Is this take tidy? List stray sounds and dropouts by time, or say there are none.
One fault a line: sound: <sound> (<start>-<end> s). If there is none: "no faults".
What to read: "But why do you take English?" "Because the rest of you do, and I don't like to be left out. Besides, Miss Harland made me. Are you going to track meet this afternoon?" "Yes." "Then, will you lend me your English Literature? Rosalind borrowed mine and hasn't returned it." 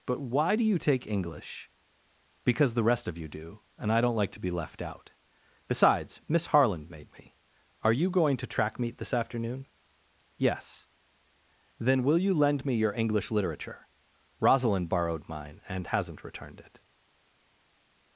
no faults